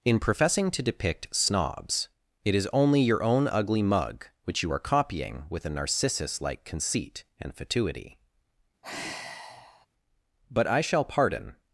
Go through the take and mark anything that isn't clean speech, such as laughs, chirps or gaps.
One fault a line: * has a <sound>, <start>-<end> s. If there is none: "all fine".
* has a sigh, 8.8-9.9 s